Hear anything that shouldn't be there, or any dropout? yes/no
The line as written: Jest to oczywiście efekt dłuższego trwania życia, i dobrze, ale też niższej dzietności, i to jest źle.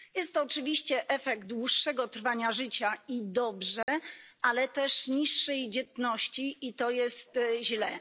yes